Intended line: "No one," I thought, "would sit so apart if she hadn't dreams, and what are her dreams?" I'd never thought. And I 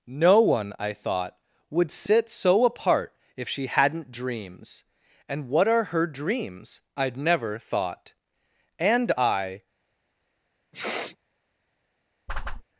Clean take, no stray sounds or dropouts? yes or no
no